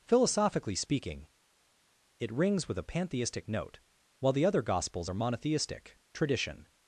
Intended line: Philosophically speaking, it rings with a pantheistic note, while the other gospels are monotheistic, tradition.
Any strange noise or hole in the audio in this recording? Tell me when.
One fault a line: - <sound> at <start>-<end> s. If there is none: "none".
none